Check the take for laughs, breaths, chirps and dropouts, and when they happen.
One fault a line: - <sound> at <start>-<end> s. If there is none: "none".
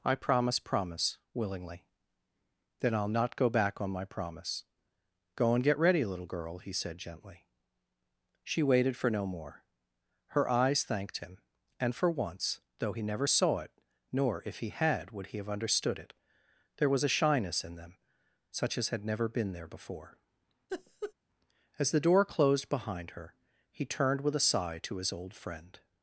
- laugh at 20.7-21.1 s